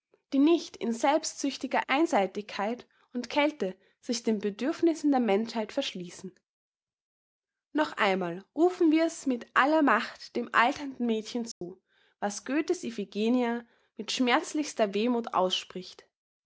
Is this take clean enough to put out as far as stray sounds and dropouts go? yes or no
no